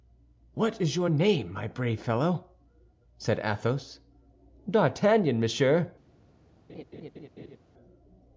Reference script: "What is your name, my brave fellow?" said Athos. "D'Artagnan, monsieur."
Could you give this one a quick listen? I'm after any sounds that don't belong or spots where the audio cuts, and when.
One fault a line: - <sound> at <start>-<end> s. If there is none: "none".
- laugh at 6.7-7.6 s